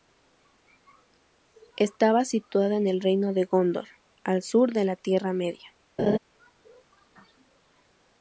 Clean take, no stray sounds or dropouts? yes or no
no